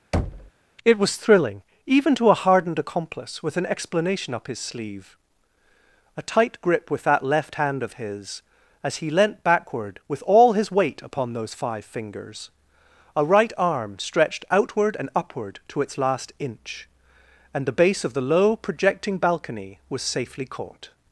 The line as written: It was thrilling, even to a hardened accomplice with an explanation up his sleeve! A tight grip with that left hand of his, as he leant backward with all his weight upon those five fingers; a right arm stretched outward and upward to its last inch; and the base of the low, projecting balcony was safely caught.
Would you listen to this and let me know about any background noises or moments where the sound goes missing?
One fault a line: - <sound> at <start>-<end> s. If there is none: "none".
- thud at 0.1-0.5 s